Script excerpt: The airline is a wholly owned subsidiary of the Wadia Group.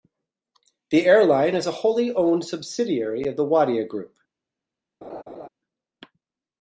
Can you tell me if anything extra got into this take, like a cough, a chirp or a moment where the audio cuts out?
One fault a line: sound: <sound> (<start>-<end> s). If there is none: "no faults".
sound: laugh (5.0-5.5 s)